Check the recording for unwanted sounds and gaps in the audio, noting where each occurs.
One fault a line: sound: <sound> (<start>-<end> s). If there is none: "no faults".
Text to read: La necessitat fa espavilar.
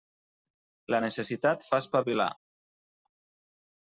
no faults